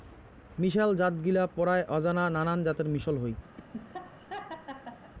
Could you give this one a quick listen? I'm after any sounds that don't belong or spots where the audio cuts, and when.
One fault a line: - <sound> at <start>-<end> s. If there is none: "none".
- laugh at 3.6-5.1 s